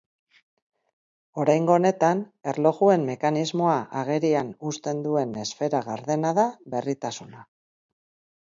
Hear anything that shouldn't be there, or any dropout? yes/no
no